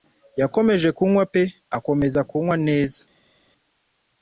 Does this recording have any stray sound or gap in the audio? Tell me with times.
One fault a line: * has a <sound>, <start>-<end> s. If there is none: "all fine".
all fine